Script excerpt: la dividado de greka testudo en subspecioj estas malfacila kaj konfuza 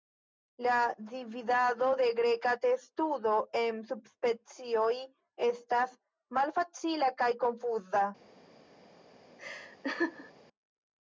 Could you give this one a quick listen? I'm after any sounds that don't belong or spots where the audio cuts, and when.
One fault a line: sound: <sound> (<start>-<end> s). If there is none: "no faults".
sound: laugh (9.4-10.3 s)